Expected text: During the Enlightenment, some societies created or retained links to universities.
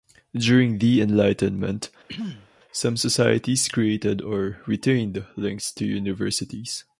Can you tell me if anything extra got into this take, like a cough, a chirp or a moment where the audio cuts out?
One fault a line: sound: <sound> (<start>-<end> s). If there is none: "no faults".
sound: throat clearing (2.1-2.5 s)